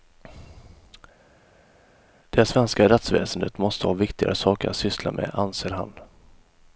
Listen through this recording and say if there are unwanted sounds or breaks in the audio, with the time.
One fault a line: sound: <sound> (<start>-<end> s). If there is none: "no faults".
no faults